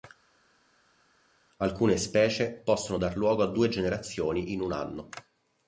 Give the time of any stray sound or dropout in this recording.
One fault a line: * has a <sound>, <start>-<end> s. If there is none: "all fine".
all fine